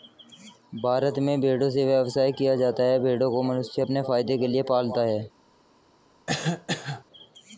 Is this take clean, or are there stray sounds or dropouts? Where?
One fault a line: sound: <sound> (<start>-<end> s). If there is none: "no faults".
sound: cough (6.3-7.0 s)